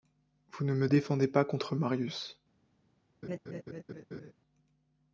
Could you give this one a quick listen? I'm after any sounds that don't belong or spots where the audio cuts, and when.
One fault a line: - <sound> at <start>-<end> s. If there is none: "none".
- laugh at 3.2-4.3 s